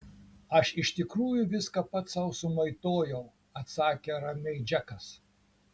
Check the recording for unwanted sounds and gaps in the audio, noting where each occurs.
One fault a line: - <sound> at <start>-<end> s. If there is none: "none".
none